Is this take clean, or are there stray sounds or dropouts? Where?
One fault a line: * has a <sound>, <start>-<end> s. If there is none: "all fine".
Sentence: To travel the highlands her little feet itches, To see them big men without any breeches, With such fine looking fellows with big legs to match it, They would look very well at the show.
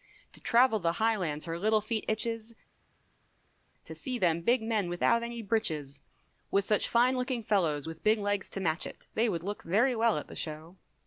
all fine